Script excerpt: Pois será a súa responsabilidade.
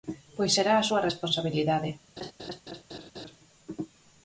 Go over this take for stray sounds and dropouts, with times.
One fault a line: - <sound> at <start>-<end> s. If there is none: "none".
- laugh at 2.2-3.4 s